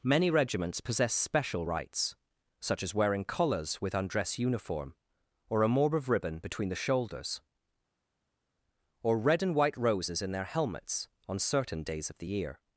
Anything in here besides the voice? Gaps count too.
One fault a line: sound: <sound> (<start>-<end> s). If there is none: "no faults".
no faults